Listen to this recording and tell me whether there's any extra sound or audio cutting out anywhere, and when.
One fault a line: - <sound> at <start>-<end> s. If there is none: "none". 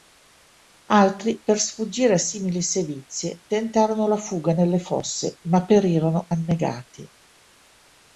none